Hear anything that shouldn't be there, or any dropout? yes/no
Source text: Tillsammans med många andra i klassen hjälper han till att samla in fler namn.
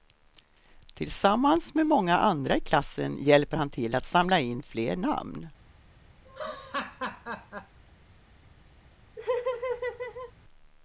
yes